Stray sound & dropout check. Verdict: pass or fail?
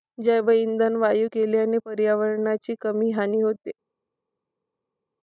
pass